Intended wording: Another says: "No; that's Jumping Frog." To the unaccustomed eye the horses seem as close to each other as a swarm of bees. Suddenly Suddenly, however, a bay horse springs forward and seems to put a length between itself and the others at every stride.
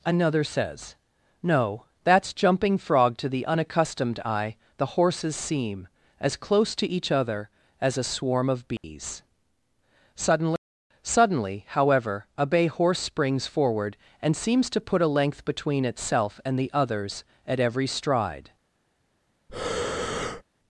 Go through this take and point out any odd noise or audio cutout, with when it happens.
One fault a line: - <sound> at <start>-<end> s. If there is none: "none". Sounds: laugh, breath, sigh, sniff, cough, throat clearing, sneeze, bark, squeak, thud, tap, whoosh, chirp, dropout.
- dropout at 8.8-8.8 s
- breath at 19.5-20.4 s